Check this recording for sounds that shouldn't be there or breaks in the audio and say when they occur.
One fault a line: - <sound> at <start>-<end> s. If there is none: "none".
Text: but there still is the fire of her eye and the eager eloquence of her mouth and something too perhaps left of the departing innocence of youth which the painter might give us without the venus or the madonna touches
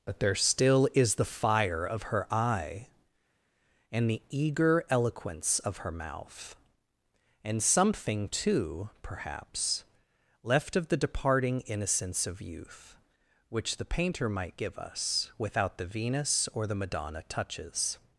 none